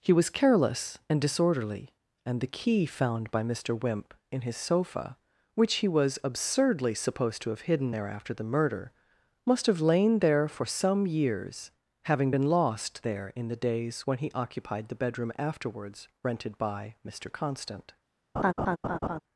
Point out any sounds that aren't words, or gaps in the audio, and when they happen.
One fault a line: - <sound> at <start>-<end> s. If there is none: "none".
- laugh at 18.4-19.2 s